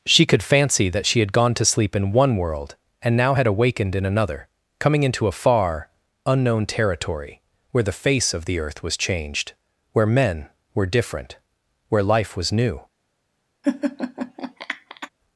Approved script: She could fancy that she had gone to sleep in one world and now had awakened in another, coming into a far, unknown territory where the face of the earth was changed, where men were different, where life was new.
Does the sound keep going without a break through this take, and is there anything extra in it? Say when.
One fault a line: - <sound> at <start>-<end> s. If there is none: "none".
- laugh at 13.6-15.1 s